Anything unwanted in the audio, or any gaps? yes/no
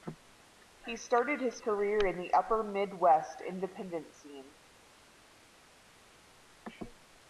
no